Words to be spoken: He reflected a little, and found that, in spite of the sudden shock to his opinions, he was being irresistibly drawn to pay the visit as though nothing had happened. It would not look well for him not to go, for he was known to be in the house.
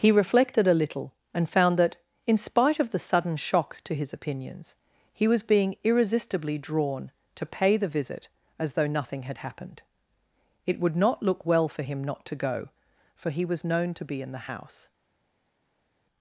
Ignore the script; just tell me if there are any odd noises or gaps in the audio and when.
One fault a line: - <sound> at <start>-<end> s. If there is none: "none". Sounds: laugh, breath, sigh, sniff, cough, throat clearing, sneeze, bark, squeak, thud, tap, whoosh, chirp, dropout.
none